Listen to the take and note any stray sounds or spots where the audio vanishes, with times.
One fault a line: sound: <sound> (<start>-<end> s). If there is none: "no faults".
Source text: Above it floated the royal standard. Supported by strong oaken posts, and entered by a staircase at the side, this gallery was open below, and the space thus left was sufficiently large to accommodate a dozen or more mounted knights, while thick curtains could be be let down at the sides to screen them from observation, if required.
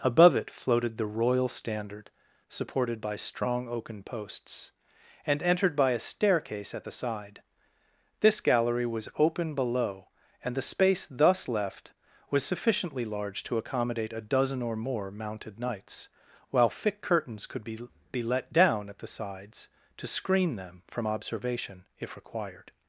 no faults